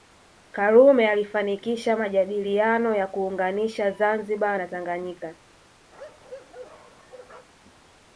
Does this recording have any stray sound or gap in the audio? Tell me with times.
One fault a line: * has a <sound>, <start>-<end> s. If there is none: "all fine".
* has a bark, 5.9-7.5 s